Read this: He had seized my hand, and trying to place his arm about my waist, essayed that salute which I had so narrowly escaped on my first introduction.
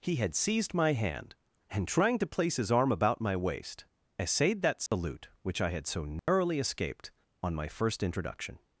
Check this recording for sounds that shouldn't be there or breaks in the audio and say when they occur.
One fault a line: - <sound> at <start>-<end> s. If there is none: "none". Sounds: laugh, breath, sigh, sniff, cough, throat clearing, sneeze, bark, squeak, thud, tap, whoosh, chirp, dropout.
- dropout at 4.9-4.9 s
- dropout at 6.2-6.3 s